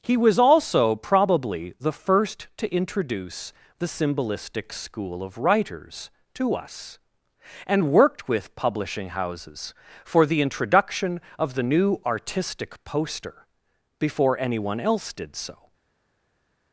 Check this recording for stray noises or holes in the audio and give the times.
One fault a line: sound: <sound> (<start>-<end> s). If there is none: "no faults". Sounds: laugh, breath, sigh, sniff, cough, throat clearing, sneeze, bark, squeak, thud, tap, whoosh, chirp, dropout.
no faults